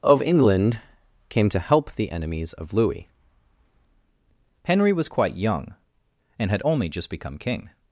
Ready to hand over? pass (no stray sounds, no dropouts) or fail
pass